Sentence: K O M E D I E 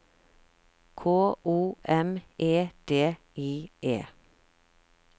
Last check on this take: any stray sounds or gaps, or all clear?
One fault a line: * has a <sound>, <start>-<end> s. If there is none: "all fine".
all fine